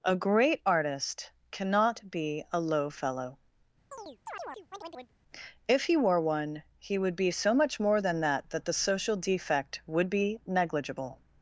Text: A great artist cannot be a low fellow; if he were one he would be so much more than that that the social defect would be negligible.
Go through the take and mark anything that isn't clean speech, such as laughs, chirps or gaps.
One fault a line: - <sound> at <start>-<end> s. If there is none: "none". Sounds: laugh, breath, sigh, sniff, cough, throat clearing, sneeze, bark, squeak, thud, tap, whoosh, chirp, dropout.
- chirp at 3.9-5.1 s